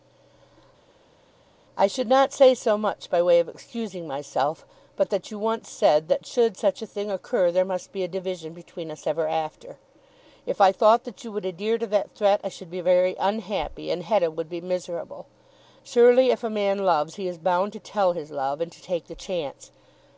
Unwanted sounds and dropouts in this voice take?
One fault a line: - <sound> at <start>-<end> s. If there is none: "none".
none